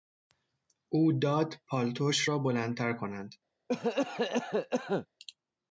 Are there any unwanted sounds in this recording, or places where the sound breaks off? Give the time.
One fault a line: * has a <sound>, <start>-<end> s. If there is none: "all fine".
* has a cough, 3.7-5.1 s